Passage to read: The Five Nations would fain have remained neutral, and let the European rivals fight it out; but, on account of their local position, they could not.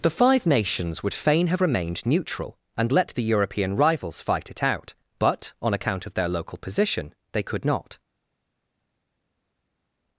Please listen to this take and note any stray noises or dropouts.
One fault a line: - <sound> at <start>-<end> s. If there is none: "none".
none